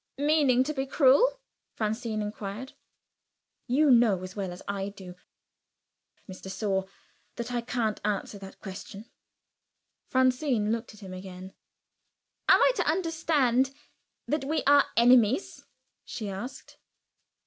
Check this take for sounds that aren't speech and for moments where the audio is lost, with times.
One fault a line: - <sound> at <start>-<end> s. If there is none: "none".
none